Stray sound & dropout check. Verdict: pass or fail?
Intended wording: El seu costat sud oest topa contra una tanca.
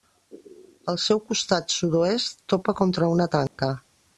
fail